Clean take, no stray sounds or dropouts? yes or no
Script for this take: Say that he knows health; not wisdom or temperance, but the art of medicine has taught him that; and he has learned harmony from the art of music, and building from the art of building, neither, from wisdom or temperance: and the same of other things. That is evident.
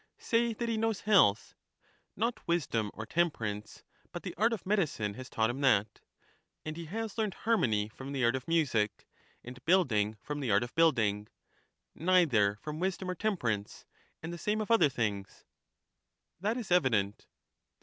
yes